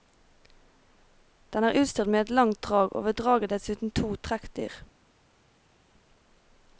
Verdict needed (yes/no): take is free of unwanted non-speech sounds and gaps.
yes